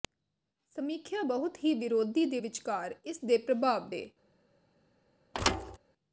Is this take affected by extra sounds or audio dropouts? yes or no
yes